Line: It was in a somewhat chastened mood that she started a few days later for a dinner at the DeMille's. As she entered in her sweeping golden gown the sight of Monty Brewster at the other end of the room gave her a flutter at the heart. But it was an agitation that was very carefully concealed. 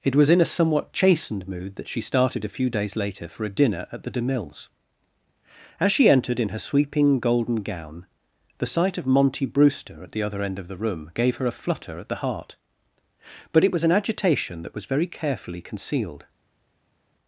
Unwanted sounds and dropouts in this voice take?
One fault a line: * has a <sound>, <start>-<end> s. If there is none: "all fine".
all fine